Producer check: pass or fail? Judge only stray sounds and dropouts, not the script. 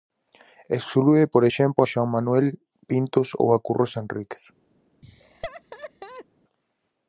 fail